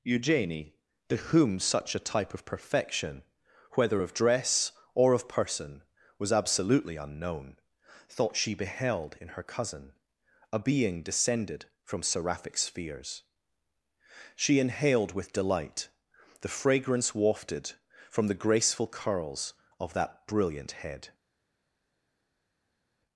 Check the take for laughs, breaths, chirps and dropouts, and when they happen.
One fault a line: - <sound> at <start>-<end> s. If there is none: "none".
none